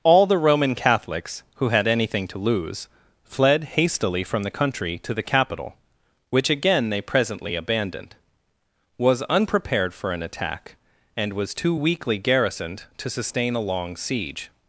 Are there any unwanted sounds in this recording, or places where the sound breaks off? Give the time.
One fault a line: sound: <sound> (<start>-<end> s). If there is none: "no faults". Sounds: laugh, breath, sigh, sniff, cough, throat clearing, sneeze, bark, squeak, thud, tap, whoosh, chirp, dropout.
no faults